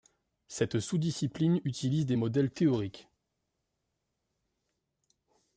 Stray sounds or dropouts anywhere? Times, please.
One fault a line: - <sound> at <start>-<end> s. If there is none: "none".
none